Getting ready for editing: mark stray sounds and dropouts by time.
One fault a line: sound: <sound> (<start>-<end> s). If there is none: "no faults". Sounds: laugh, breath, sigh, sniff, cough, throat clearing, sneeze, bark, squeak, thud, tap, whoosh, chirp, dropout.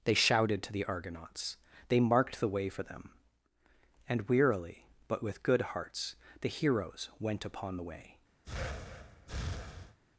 sound: breath (8.4-10.0 s)